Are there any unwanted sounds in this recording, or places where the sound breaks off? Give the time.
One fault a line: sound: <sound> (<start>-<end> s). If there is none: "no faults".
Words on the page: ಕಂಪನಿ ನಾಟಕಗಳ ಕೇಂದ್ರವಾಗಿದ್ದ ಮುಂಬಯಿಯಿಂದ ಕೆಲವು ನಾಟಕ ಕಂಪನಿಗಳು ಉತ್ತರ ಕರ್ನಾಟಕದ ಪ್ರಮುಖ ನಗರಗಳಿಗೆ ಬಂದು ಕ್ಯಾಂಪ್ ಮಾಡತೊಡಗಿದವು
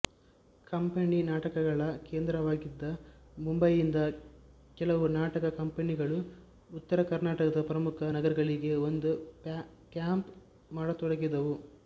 no faults